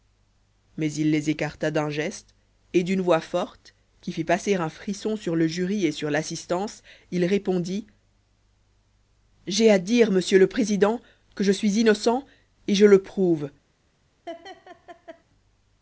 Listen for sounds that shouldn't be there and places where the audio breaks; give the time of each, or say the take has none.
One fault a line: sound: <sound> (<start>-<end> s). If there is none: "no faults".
sound: laugh (14.3-15.2 s)